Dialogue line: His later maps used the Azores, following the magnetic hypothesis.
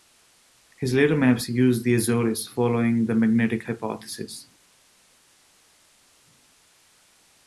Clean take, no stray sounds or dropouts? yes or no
yes